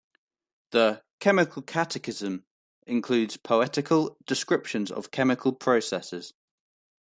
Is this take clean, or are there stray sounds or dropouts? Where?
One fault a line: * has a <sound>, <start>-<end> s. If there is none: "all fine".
all fine